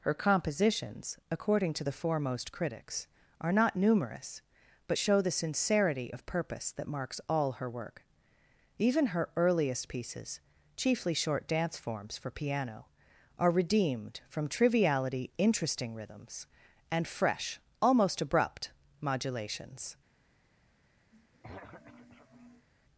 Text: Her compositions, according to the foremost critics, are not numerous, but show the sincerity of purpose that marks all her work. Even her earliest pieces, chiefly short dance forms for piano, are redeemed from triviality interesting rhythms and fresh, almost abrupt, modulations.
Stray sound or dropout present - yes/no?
yes